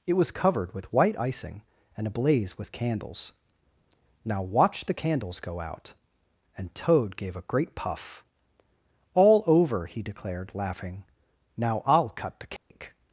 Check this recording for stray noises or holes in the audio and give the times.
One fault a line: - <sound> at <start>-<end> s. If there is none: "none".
- dropout at 12.6-12.7 s